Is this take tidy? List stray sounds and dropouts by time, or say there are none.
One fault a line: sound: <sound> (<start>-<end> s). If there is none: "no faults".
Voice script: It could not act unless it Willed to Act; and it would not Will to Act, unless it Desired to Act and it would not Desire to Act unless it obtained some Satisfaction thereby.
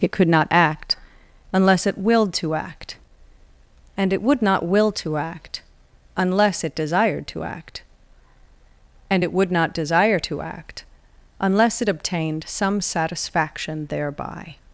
no faults